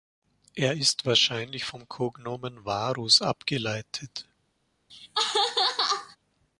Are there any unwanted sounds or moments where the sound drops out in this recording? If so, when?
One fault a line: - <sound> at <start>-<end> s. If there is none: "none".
- laugh at 4.9-6.2 s